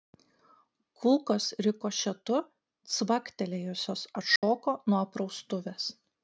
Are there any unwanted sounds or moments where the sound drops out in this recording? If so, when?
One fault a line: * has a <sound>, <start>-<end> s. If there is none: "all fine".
* has a dropout, 4.4-4.4 s